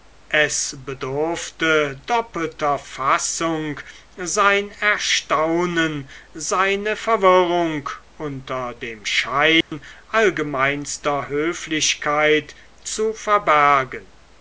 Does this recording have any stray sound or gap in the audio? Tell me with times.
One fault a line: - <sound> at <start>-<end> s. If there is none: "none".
- dropout at 9.6-9.7 s